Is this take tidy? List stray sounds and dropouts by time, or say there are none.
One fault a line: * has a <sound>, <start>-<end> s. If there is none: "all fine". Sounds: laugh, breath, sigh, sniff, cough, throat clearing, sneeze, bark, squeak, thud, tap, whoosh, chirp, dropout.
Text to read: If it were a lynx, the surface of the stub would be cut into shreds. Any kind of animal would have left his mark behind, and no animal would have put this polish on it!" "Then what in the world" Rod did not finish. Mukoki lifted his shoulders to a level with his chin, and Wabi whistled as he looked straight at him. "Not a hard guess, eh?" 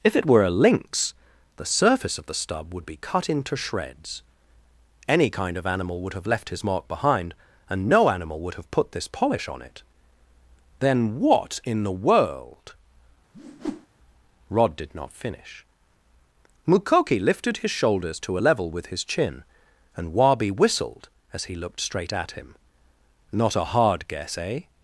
* has a whoosh, 13.3-13.9 s